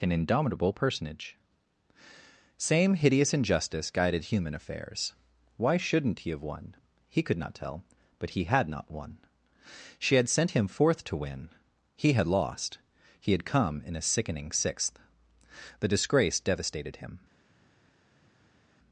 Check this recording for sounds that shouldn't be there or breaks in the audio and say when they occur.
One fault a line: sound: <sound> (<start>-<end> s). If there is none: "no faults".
no faults